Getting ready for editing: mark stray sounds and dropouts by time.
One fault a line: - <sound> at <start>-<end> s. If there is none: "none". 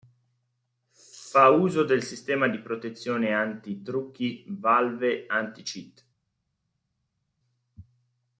none